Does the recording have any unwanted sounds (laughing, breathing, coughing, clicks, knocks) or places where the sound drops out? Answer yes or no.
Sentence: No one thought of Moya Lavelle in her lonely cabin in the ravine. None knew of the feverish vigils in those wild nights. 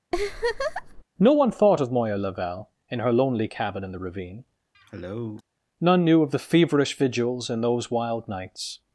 yes